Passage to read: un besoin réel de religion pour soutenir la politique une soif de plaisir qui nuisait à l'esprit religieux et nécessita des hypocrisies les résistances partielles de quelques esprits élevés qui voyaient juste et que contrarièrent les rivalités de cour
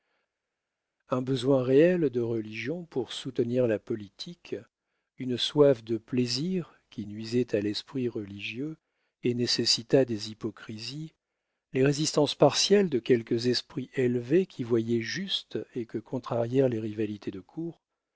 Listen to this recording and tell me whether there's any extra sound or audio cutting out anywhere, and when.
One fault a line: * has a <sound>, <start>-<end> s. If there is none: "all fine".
all fine